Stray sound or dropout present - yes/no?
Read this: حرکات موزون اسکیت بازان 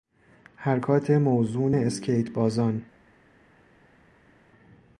no